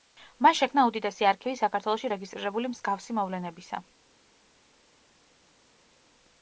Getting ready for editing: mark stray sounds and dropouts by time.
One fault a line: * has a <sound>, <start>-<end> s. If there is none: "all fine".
all fine